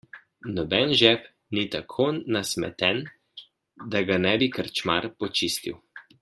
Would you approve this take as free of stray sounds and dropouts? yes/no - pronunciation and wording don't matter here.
yes